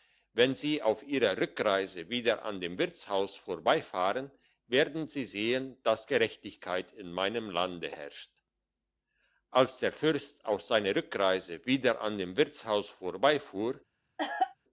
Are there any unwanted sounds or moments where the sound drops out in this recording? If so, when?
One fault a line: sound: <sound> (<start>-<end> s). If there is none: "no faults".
sound: cough (14.2-14.5 s)